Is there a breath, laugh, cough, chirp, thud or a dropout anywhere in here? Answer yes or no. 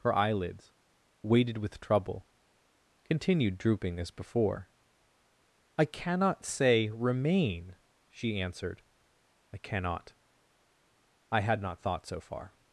no